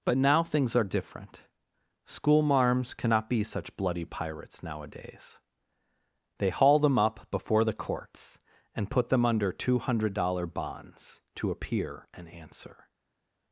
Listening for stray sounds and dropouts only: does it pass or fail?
pass